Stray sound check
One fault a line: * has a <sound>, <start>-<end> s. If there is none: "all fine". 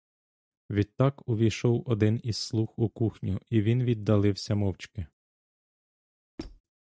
* has a squeak, 6.4-6.6 s